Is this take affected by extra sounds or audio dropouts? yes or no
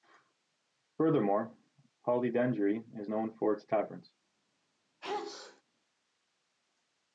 yes